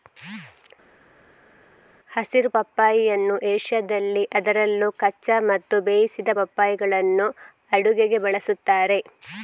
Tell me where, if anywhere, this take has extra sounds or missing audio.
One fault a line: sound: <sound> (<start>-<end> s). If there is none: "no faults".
no faults